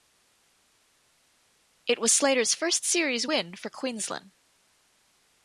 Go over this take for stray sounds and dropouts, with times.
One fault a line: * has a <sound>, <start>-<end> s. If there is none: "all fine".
all fine